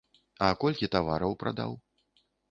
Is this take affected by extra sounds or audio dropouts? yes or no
no